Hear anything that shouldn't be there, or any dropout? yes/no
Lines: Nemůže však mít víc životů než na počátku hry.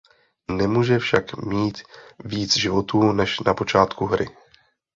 no